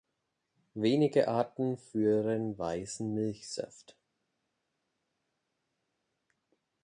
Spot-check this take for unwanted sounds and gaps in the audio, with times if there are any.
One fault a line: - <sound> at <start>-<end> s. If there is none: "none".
none